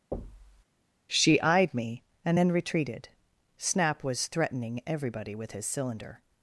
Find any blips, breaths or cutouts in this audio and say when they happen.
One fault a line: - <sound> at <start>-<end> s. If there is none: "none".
- thud at 0.1-0.6 s